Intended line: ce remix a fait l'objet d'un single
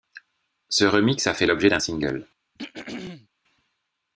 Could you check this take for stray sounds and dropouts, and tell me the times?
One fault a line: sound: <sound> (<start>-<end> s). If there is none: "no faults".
sound: throat clearing (2.6-3.3 s)